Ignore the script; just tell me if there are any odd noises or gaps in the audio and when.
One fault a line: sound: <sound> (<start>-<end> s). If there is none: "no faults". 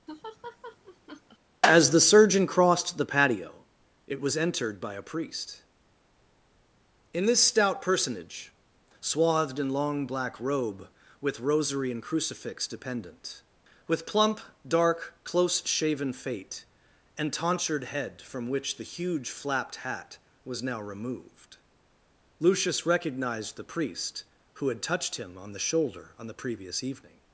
sound: laugh (0.1-1.4 s)